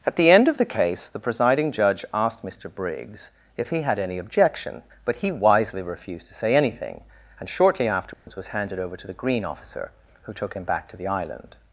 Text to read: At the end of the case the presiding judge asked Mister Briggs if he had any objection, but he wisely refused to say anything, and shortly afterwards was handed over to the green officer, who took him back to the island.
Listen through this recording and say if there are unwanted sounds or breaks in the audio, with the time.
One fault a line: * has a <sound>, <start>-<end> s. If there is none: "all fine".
* has a dropout, 8.1-8.3 s